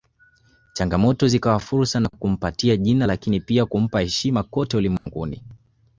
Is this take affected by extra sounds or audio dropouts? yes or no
yes